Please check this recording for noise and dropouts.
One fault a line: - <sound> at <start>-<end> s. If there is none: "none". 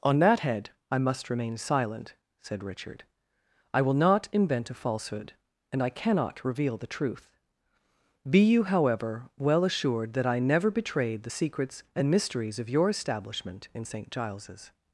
none